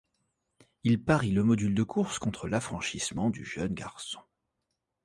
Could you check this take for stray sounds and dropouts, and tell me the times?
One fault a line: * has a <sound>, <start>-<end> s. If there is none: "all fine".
all fine